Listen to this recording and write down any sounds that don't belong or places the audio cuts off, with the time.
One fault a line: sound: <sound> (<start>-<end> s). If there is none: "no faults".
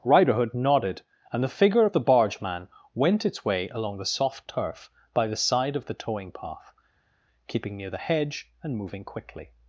no faults